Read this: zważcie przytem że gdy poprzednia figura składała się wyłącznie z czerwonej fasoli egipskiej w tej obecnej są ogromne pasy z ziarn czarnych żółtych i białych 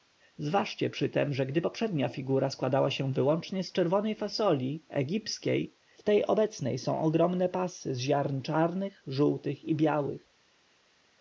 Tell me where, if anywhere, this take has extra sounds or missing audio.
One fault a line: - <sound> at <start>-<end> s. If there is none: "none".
none